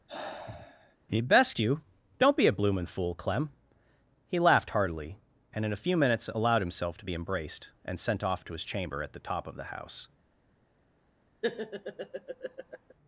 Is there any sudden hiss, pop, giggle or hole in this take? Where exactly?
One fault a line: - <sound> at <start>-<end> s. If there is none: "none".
- sigh at 0.1-1.0 s
- laugh at 11.4-12.9 s